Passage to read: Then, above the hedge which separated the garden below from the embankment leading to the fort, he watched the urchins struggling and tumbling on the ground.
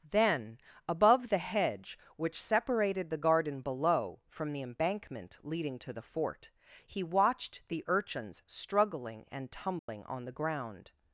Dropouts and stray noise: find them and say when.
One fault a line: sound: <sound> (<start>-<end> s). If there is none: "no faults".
sound: dropout (9.8-9.9 s)